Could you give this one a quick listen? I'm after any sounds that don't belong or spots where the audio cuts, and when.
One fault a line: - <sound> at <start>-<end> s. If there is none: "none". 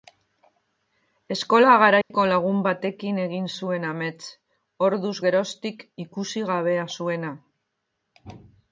- dropout at 2.0-2.1 s